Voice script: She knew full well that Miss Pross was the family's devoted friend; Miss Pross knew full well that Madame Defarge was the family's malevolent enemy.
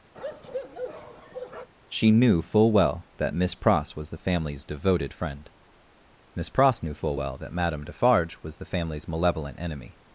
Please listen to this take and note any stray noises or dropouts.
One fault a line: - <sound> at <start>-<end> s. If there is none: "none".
- bark at 0.1-1.7 s